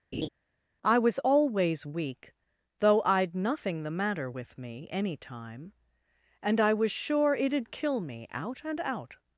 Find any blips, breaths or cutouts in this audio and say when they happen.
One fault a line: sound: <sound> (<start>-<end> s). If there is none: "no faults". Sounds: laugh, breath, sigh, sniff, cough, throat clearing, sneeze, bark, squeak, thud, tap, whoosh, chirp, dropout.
sound: laugh (0.1-0.3 s)